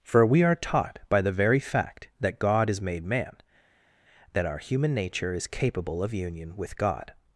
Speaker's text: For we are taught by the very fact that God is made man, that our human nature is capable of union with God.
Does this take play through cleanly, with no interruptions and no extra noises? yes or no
yes